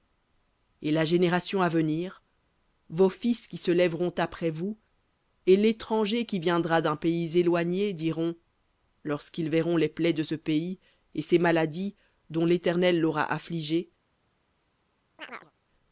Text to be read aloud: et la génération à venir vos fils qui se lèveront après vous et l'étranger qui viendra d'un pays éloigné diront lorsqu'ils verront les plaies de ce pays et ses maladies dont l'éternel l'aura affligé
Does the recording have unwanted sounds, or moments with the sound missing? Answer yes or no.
yes